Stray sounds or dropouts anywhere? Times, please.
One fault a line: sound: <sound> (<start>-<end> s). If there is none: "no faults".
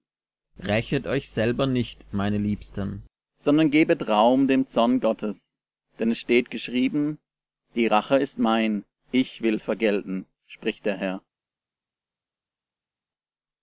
no faults